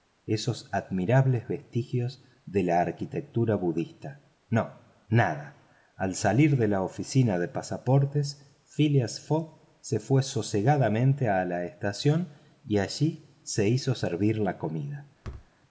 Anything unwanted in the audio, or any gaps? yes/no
yes